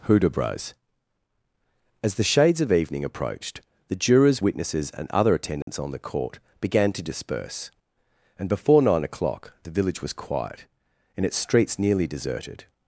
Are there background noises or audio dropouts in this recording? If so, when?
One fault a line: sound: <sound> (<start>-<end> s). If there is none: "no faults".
sound: dropout (5.6-5.7 s)